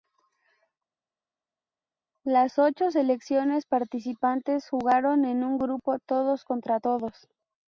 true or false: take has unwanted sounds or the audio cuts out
false